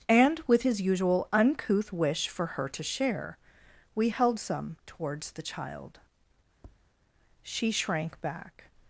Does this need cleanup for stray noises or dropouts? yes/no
yes